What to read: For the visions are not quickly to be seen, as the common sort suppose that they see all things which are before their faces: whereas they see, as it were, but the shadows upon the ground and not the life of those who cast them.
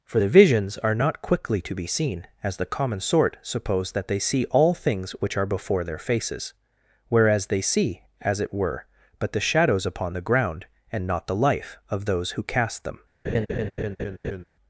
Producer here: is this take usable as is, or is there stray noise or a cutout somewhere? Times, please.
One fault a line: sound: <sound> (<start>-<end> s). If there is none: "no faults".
sound: laugh (13.2-14.4 s)